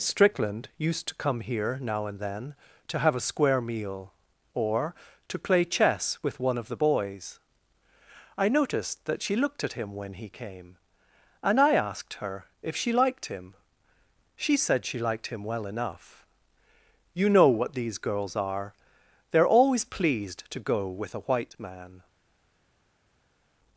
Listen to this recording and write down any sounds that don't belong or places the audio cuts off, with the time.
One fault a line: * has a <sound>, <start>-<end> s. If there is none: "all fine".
all fine